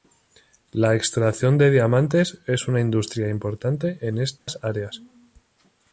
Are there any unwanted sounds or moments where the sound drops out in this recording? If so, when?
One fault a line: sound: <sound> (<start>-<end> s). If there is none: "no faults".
sound: dropout (4.4-4.5 s)